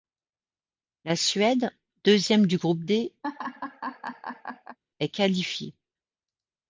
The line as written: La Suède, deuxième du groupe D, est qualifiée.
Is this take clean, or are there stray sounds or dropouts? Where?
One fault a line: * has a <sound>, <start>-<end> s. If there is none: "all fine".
* has a laugh, 3.2-4.8 s